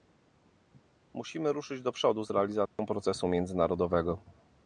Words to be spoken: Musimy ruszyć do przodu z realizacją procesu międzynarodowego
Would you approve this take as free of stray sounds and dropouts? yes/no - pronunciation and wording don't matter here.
no